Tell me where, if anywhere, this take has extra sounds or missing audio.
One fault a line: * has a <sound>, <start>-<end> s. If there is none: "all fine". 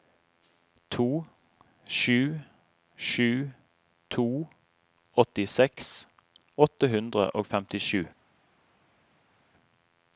all fine